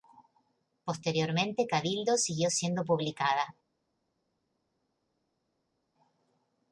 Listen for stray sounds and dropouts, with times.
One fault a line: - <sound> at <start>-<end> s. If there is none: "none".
none